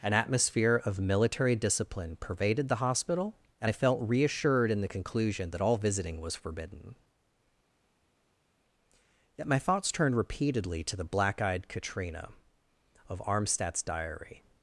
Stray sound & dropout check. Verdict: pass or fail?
pass